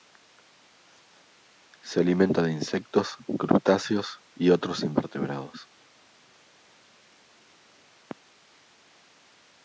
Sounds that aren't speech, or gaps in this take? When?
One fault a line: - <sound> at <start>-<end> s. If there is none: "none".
none